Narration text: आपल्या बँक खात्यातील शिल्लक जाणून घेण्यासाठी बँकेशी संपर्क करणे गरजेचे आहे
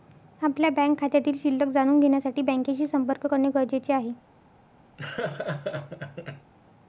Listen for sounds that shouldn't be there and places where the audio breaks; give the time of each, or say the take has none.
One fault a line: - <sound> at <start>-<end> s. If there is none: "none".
- laugh at 5.0-6.5 s